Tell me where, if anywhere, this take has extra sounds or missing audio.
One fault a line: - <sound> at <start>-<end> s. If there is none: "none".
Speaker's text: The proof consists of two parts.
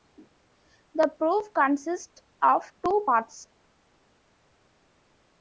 none